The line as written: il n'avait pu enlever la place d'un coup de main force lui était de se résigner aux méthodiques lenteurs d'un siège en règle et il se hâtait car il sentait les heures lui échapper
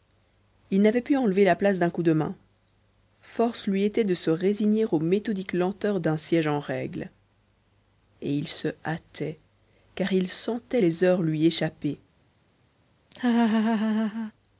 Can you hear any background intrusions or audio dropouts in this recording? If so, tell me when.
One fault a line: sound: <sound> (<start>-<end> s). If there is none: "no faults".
sound: laugh (13.1-14.3 s)